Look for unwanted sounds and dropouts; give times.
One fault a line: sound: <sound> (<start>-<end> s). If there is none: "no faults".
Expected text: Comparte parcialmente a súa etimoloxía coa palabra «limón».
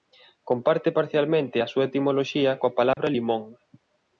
sound: dropout (2.9-3.0 s)